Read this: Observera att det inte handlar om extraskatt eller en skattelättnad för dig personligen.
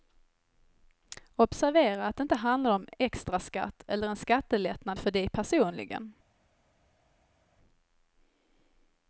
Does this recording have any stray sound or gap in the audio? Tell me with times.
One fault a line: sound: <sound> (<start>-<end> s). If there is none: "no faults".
no faults